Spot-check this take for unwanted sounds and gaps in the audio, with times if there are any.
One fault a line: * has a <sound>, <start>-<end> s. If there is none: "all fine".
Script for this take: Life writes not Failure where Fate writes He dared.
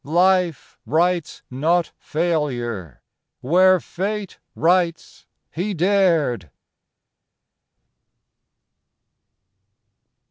all fine